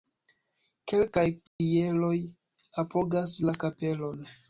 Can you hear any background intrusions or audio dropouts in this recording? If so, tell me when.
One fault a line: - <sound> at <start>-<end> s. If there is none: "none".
- dropout at 1.5-1.6 s